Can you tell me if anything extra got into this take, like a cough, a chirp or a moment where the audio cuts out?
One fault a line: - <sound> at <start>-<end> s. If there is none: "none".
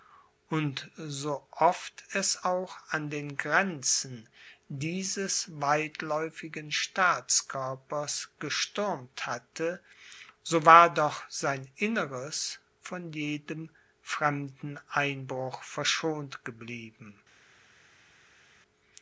none